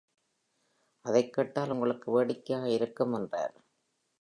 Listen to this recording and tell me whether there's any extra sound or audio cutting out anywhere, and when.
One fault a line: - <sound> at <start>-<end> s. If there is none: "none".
none